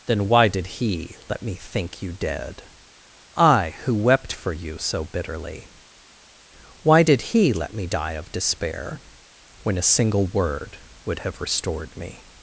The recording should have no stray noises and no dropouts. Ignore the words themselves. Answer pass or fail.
pass